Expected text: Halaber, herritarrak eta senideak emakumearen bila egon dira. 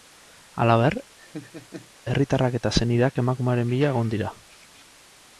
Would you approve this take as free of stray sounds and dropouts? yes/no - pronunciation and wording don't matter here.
no